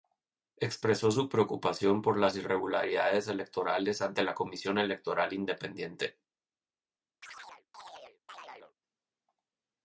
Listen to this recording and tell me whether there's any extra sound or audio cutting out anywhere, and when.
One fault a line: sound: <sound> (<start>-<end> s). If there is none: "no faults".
sound: chirp (7.2-8.7 s)